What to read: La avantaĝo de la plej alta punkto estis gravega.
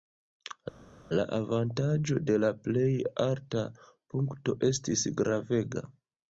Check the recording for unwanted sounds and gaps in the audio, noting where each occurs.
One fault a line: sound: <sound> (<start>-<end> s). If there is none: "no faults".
no faults